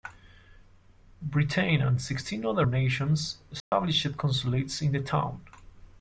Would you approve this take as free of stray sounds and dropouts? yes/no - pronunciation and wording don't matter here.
no